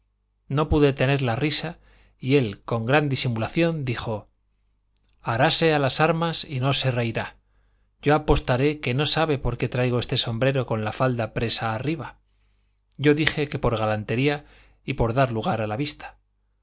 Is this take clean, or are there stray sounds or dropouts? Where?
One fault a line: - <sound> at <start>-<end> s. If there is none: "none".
none